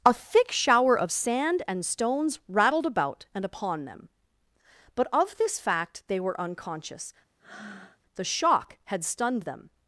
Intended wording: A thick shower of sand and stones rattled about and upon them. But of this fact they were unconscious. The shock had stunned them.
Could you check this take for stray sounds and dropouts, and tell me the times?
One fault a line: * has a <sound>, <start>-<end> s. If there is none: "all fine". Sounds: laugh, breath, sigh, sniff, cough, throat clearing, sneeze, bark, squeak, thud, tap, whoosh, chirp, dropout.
* has a breath, 7.4-8.0 s